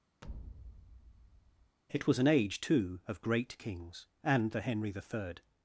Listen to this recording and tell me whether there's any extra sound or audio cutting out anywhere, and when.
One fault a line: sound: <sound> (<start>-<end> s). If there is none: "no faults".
sound: thud (0.2-1.8 s)